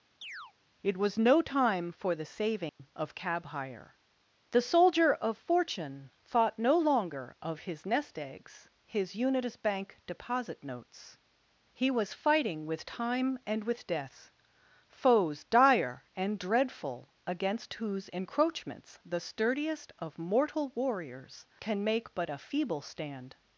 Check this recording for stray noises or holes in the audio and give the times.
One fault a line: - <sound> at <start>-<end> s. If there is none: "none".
- chirp at 0.2-0.5 s
- dropout at 2.7-2.8 s